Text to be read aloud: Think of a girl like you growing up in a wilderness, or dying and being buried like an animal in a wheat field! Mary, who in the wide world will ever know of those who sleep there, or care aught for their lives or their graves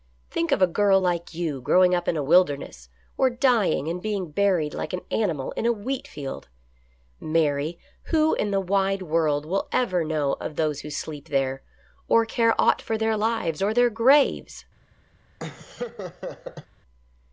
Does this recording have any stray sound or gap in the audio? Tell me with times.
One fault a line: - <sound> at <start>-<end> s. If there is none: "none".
- laugh at 15.4-16.7 s